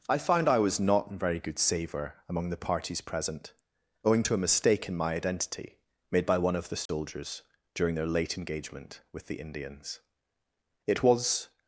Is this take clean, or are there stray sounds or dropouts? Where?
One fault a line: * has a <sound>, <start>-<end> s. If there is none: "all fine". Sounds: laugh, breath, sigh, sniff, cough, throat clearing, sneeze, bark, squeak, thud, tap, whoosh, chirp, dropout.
* has a dropout, 6.9-6.9 s